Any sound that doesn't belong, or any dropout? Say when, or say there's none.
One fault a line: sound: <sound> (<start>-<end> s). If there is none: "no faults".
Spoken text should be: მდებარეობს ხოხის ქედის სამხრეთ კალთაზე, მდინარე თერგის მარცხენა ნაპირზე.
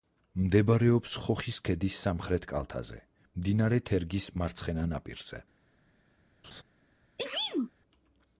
sound: laugh (6.4-6.6 s)
sound: sneeze (7.2-7.7 s)